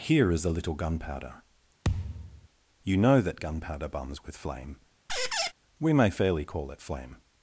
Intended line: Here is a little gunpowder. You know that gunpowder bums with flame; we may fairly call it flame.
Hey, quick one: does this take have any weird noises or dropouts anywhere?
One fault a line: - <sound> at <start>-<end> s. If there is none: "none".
- thud at 1.8-2.5 s
- squeak at 5.1-5.5 s